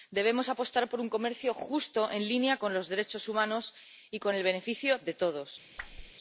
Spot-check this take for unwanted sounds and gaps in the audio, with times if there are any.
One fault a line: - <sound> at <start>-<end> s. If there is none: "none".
- whoosh at 5.8-6.1 s